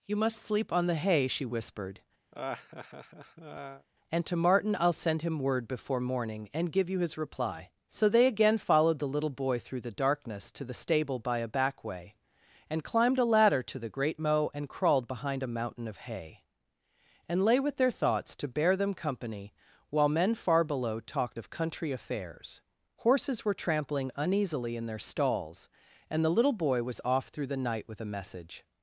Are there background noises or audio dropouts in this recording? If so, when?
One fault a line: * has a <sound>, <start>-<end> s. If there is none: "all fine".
* has a laugh, 2.3-3.9 s